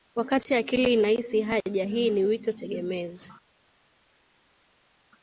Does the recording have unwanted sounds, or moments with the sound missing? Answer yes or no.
no